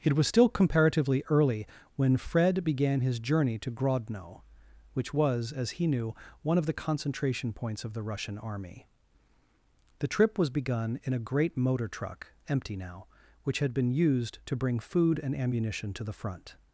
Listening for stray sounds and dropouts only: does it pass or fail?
pass